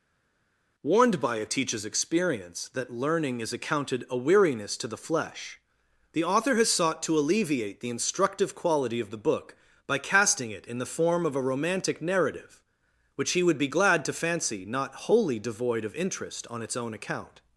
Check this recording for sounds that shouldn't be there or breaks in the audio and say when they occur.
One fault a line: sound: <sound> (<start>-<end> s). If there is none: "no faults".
no faults